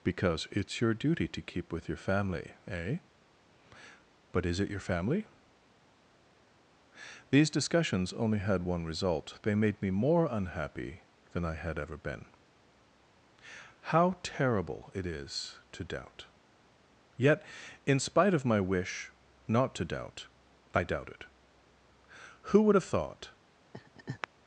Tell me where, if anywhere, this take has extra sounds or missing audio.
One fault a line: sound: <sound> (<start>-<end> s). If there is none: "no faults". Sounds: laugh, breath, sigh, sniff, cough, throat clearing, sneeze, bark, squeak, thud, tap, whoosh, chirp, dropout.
sound: laugh (23.7-24.3 s)